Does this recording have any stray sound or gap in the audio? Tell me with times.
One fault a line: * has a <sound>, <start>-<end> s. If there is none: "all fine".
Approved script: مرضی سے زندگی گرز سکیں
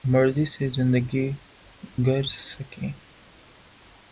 all fine